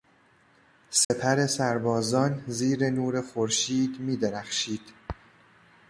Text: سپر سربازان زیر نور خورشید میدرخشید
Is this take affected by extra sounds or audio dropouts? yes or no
yes